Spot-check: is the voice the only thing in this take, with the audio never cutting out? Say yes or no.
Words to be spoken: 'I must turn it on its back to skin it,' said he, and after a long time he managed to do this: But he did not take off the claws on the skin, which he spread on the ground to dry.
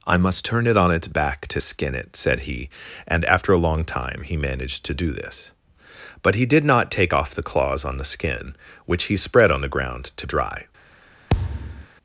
no